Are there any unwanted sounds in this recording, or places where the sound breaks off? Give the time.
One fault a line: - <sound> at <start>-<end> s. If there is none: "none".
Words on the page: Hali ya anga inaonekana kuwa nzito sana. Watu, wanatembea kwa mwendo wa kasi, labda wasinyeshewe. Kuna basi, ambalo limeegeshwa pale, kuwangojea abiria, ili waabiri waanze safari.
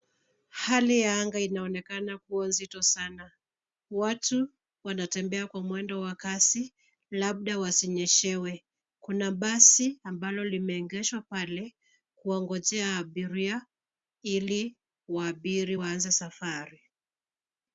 none